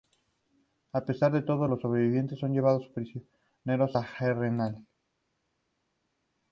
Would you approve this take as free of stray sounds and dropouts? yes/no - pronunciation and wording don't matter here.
yes